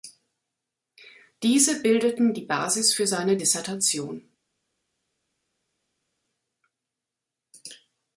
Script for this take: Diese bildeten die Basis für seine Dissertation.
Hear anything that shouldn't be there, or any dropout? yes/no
no